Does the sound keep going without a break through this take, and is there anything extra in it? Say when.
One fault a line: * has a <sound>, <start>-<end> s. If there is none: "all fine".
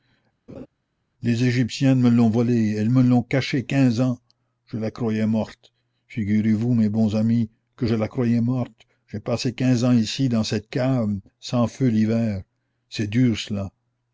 * has a laugh, 0.5-0.7 s